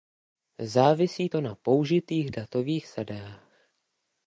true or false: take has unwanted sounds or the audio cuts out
false